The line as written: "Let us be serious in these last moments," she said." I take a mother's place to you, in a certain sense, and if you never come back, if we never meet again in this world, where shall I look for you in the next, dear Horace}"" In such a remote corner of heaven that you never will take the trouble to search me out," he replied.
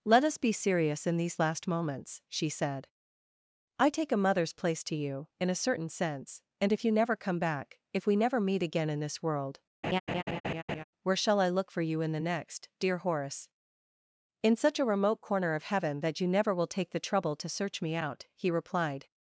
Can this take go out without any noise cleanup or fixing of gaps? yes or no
no